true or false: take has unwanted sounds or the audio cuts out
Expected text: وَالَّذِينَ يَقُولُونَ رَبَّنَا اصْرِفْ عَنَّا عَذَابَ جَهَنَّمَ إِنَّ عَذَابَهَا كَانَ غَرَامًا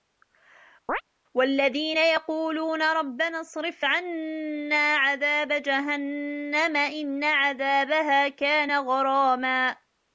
true